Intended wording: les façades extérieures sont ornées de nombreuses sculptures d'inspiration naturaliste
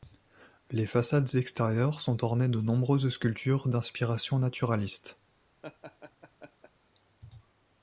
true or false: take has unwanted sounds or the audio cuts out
true